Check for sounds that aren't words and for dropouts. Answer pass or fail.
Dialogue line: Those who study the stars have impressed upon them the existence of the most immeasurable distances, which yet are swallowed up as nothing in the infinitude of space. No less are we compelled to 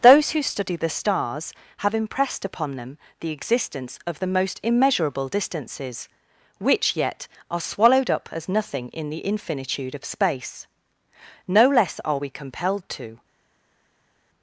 pass